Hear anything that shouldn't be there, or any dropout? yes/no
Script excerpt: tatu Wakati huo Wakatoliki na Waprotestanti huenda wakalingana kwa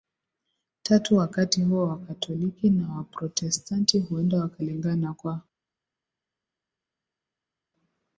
no